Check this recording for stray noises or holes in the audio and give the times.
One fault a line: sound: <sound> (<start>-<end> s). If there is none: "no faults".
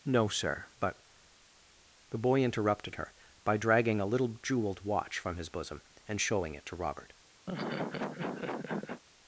sound: laugh (7.5-9.0 s)